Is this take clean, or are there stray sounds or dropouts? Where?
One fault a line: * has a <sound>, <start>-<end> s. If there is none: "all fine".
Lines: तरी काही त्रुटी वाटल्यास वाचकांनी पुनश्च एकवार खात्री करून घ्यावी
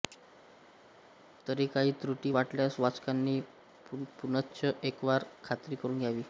all fine